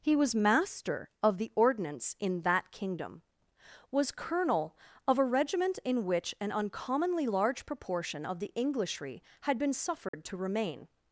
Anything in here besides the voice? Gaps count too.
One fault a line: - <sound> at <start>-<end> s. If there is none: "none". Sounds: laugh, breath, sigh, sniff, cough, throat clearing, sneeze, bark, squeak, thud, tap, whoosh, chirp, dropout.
- dropout at 10.1-10.1 s